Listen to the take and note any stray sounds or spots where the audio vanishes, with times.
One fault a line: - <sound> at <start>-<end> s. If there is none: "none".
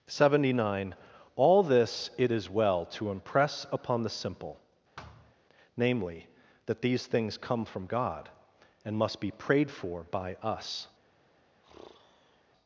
- thud at 5.0-5.3 s
- sigh at 11.6-12.4 s